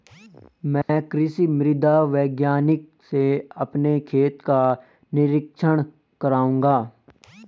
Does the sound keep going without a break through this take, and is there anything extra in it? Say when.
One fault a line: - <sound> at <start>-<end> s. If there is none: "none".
- dropout at 0.8-0.9 s